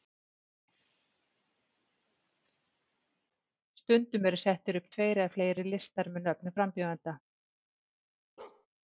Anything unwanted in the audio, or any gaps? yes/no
yes